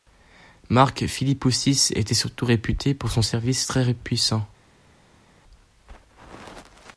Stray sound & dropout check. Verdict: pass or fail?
pass